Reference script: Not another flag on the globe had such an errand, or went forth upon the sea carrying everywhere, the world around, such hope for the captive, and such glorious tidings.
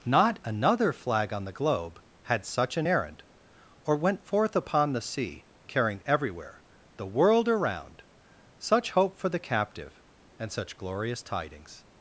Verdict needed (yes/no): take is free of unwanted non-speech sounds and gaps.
yes